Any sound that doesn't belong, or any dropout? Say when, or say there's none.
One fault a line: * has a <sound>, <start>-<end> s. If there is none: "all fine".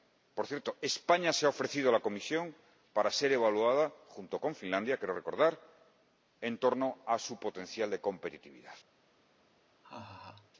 * has a laugh, 9.8-10.5 s